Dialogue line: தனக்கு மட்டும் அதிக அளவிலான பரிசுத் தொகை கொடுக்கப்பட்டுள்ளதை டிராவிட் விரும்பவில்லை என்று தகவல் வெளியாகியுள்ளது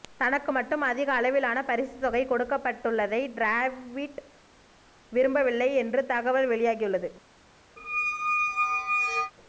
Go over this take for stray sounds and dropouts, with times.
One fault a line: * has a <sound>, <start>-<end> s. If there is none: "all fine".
* has a squeak, 7.8-9.3 s